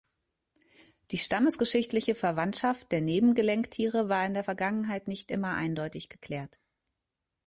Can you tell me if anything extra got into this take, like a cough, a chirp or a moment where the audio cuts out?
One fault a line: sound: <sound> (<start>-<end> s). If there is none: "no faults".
no faults